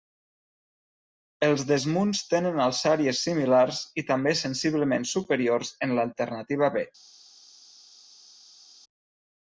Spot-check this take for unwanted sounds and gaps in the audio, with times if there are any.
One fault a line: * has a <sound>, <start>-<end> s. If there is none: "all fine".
all fine